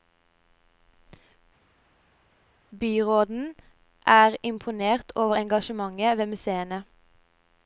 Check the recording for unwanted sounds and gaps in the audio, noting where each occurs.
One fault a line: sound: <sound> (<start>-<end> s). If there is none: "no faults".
no faults